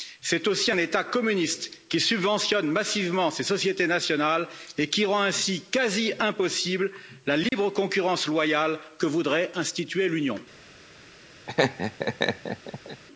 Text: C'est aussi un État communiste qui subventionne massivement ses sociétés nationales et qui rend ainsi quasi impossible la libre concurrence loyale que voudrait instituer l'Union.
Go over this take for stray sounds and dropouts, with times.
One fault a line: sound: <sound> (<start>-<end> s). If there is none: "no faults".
sound: dropout (7.5-7.5 s)
sound: laugh (11.5-13.0 s)